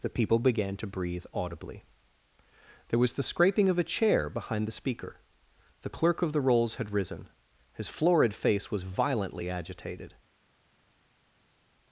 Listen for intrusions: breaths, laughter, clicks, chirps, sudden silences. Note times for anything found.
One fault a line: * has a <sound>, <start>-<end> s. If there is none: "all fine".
all fine